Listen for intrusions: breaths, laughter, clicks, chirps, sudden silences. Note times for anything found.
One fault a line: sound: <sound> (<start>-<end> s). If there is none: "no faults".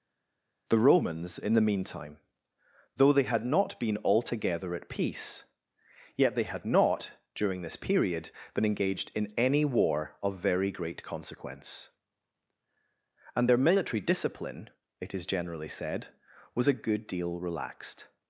no faults